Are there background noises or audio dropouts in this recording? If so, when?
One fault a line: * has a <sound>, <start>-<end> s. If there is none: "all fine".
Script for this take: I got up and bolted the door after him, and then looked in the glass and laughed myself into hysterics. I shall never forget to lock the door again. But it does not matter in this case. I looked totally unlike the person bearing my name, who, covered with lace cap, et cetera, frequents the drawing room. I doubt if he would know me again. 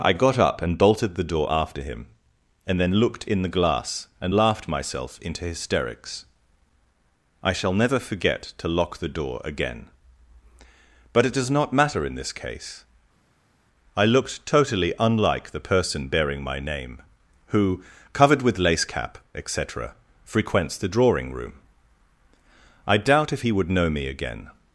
all fine